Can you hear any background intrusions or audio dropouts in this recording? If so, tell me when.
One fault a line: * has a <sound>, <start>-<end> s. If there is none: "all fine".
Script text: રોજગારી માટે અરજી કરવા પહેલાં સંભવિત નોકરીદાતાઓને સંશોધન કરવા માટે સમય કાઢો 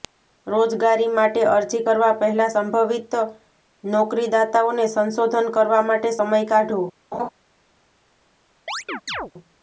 * has a laugh, 7.1-7.3 s
* has a chirp, 8.7-9.3 s